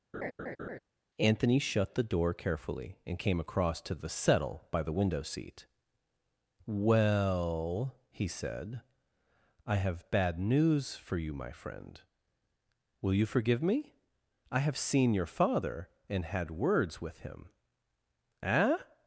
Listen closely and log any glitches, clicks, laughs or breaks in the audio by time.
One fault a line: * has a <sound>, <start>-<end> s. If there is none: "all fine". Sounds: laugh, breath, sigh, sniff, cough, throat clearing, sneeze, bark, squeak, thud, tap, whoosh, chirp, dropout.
* has a laugh, 0.1-0.8 s